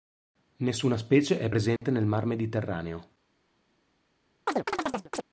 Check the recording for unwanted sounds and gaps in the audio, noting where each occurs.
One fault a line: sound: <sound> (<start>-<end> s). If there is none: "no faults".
sound: dropout (1.8-1.8 s)
sound: chirp (4.5-5.2 s)